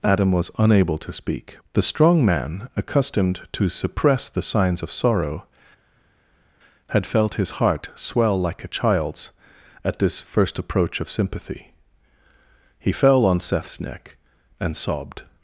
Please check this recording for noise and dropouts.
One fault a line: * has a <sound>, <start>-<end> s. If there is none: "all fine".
all fine